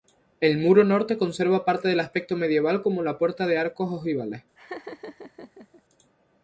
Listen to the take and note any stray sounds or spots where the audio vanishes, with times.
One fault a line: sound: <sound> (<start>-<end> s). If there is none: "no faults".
sound: laugh (4.6-5.8 s)